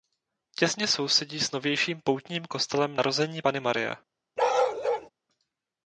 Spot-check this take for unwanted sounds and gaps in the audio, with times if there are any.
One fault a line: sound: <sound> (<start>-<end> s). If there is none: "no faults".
sound: bark (4.4-5.1 s)